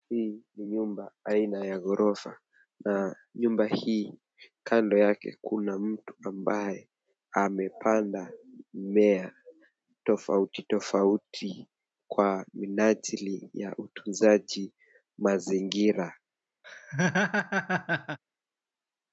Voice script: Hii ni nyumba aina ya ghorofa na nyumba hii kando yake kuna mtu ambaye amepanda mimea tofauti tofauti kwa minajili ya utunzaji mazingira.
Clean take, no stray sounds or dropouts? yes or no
no